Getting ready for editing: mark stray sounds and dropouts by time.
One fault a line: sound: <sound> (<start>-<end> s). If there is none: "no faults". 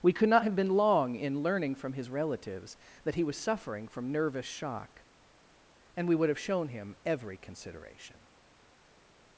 no faults